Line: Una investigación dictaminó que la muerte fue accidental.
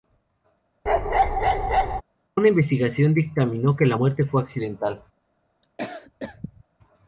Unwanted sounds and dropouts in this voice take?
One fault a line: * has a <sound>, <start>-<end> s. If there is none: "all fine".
* has a bark, 0.9-2.0 s
* has a cough, 5.6-6.6 s